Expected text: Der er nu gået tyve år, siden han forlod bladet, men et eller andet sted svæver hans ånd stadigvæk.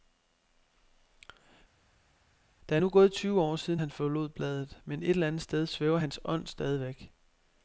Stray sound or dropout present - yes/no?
no